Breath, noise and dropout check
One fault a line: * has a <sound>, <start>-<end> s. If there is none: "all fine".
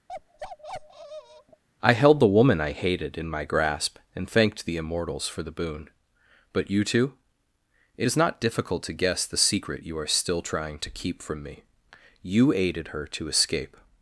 * has a bark, 0.1-1.6 s